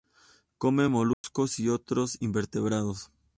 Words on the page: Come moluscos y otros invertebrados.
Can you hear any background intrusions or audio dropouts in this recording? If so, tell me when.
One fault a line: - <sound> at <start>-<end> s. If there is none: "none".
- dropout at 1.1-1.2 s